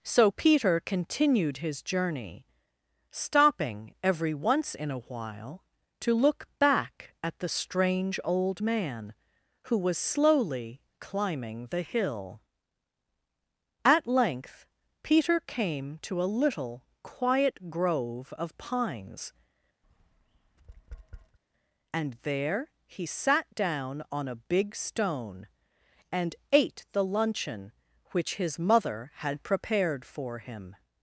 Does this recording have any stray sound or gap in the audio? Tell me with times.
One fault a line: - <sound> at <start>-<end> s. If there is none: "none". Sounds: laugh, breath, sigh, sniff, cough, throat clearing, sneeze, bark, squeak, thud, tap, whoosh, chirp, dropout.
- tap at 19.8-21.4 s